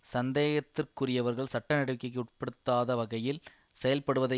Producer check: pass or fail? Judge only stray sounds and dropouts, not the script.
pass